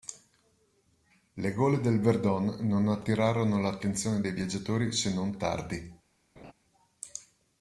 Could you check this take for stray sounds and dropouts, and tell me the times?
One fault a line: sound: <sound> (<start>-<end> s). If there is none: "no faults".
sound: laugh (6.4-6.5 s)